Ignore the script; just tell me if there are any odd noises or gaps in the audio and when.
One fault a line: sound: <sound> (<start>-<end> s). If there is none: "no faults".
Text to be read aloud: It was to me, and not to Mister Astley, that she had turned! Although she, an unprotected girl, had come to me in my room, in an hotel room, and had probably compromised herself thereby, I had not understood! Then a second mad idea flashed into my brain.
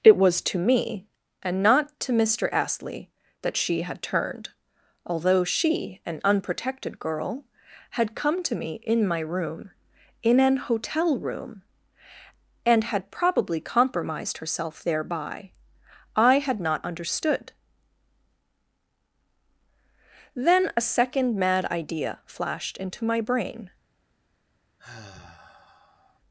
sound: sigh (24.8-26.2 s)